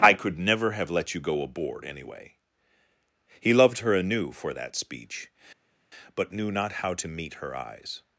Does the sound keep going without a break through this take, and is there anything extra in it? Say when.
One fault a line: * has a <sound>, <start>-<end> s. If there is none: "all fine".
all fine